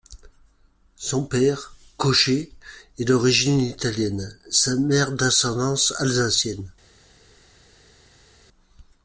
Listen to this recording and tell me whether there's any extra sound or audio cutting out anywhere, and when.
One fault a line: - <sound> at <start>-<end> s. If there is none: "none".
none